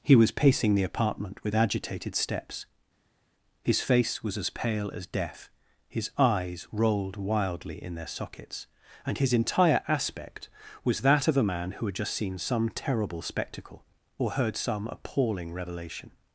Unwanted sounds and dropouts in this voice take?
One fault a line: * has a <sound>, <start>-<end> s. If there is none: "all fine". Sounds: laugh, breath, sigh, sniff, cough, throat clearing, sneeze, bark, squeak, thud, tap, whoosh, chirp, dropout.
all fine